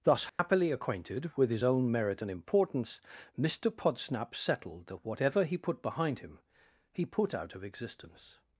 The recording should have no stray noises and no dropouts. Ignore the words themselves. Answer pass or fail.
fail